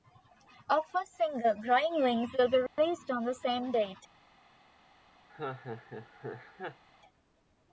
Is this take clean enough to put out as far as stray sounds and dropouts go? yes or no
no